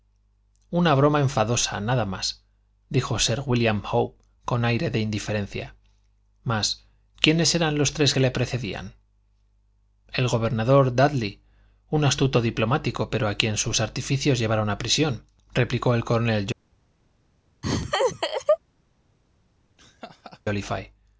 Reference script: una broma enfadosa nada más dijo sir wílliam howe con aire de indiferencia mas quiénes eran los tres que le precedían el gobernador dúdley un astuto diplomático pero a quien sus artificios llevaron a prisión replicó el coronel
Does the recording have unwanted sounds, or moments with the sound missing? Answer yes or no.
yes